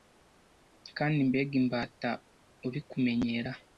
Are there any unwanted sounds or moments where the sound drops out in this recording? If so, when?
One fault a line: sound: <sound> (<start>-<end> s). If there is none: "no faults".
no faults